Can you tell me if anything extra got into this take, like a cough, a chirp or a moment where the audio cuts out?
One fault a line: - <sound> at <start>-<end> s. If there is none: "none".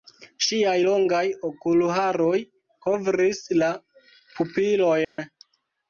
- dropout at 5.0-5.2 s